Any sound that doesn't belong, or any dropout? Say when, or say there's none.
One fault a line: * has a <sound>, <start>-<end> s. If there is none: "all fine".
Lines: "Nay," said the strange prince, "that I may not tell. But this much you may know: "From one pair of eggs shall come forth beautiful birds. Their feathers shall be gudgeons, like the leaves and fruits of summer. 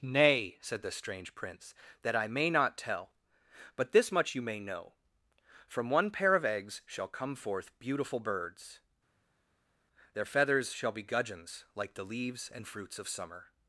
all fine